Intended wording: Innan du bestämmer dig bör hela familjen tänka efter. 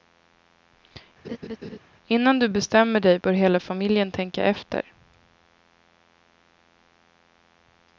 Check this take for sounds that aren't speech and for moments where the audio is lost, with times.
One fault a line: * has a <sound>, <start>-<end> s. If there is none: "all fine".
* has a laugh, 1.2-1.8 s